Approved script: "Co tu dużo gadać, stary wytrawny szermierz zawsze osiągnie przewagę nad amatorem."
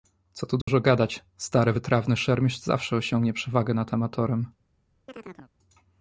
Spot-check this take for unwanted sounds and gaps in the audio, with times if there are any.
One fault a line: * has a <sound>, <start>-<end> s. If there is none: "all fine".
* has a dropout, 0.6-0.7 s
* has a chirp, 5.1-5.5 s